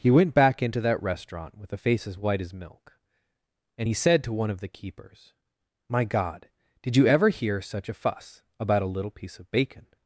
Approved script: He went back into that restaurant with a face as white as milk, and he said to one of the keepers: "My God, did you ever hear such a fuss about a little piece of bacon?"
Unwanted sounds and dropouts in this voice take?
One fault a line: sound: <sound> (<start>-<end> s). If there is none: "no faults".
no faults